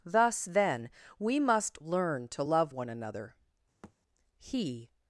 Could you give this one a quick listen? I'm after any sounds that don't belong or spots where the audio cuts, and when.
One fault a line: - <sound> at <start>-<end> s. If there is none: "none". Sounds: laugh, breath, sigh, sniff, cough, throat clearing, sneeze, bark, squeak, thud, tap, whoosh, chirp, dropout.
- thud at 3.8-3.9 s